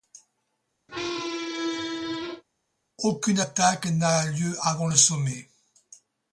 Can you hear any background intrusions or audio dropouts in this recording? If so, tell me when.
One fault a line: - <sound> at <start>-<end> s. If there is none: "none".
- squeak at 0.9-2.4 s